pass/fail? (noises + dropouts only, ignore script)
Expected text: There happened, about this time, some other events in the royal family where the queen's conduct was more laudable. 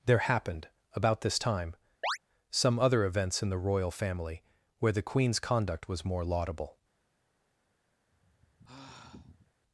fail